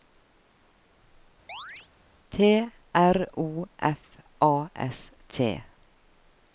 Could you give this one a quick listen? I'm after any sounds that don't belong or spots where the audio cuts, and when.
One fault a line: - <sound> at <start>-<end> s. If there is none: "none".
- chirp at 1.5-1.9 s